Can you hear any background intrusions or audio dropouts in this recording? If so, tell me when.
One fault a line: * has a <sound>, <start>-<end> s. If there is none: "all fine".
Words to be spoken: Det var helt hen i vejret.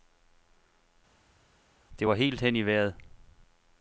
all fine